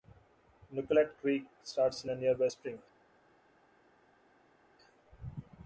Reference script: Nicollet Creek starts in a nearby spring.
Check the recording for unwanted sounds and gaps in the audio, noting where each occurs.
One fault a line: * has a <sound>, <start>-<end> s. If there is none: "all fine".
all fine